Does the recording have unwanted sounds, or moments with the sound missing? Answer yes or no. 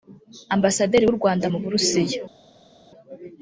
no